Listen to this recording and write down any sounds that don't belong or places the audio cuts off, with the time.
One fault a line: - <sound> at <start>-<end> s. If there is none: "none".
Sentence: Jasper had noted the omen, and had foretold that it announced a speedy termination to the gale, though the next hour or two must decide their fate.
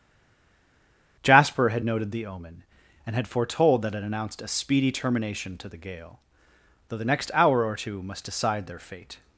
none